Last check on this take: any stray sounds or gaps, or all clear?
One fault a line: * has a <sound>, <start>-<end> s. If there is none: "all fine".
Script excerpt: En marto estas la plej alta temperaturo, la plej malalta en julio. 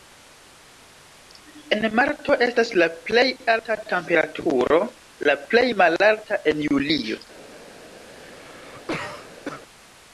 * has a cough, 8.1-9.6 s